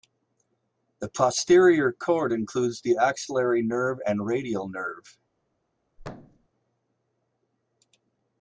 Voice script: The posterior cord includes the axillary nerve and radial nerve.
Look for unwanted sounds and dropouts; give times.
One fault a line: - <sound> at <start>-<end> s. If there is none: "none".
- thud at 6.0-6.5 s